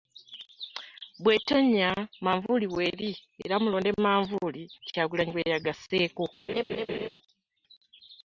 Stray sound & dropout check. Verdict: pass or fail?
fail